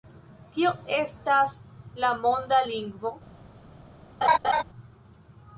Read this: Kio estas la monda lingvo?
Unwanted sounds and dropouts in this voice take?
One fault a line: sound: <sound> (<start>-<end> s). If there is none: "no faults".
sound: laugh (4.2-4.6 s)